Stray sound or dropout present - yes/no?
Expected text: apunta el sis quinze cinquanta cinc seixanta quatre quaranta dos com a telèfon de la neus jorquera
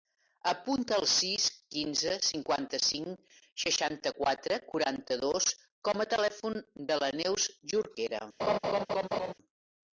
yes